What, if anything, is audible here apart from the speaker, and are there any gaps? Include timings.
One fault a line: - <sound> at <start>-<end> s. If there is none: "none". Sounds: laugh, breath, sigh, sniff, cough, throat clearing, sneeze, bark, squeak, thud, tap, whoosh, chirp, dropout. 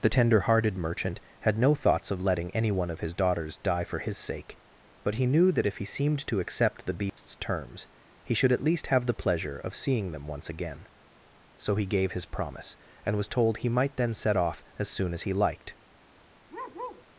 - dropout at 7.1-7.2 s
- bark at 16.5-17.0 s